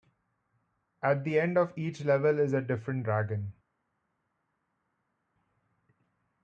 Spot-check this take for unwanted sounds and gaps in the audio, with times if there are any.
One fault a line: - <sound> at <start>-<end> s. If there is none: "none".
none